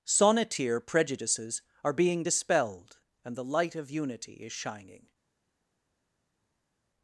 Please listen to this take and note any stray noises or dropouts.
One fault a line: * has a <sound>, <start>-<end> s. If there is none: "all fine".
all fine